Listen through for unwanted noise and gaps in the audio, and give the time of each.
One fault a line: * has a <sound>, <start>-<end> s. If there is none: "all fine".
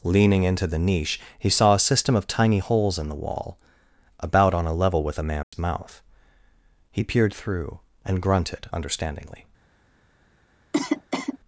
* has a dropout, 5.4-5.5 s
* has a cough, 10.7-11.4 s